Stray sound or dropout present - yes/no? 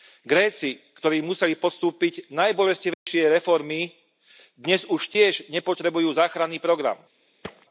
yes